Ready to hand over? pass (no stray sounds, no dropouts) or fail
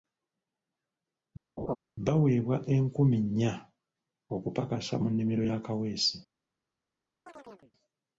fail